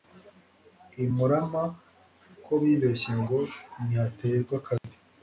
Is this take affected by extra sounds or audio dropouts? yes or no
yes